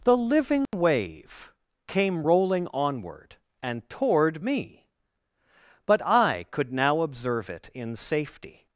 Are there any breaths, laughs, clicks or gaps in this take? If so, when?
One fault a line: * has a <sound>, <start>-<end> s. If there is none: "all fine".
* has a dropout, 0.7-0.7 s